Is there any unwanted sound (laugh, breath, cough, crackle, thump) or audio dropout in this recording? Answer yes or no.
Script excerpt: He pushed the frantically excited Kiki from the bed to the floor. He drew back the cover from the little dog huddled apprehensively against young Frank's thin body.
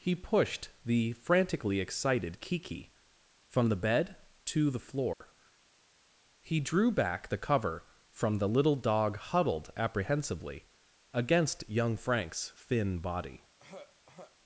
yes